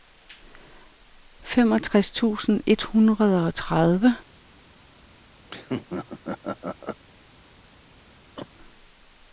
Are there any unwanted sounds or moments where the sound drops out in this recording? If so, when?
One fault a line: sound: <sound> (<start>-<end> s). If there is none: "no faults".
sound: laugh (5.5-7.0 s)
sound: cough (8.4-8.5 s)